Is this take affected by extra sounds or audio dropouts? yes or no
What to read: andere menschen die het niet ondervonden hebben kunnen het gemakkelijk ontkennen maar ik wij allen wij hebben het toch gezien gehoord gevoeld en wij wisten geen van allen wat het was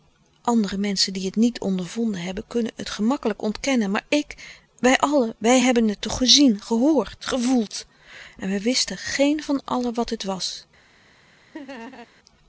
yes